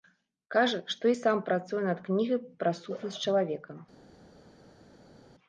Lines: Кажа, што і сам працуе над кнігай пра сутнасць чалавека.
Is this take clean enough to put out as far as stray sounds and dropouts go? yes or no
yes